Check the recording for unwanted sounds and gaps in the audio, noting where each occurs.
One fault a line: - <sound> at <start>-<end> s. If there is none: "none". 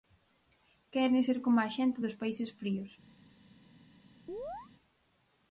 - chirp at 4.3-4.7 s